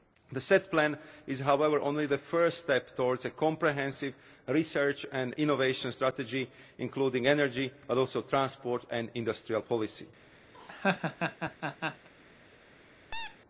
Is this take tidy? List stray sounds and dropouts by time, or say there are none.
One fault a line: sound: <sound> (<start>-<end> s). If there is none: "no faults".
sound: laugh (10.5-12.1 s)
sound: squeak (13.1-13.4 s)